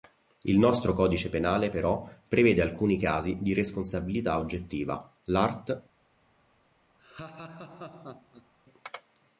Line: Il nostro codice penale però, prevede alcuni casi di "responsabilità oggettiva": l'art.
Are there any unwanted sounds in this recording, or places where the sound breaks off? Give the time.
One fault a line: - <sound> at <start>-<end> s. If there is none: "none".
- laugh at 7.0-8.5 s